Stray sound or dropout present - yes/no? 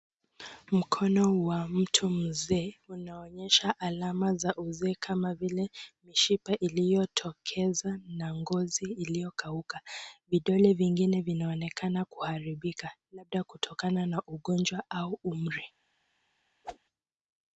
yes